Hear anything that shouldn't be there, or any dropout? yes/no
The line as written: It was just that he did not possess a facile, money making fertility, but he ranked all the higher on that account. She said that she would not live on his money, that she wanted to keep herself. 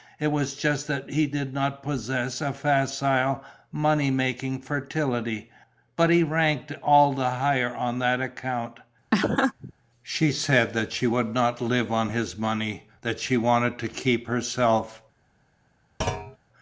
yes